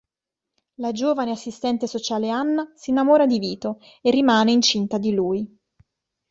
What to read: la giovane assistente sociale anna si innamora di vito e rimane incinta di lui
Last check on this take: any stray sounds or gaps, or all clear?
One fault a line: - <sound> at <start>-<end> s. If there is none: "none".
none